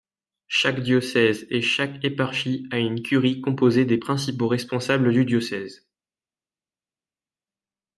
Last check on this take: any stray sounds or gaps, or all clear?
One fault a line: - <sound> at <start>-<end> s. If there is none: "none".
none